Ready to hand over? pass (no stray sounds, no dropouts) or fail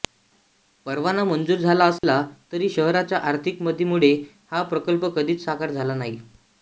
fail